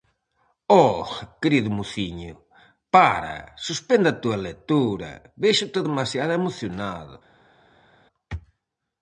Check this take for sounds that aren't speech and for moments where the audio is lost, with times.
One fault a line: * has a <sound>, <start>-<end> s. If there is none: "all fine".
all fine